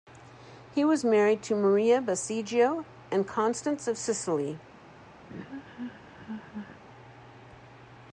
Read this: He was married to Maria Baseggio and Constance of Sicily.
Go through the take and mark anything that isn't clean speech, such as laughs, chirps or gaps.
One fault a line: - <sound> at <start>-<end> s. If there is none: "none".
- laugh at 5.3-6.8 s